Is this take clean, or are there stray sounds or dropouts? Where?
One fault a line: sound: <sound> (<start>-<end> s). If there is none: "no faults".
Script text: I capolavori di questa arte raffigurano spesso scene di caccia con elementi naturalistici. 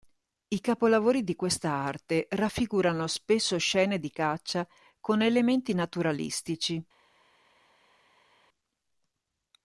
no faults